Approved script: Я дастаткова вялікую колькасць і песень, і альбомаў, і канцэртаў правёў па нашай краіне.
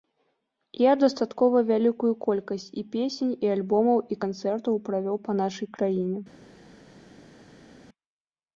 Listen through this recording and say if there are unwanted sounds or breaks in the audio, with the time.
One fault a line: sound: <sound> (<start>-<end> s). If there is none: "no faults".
no faults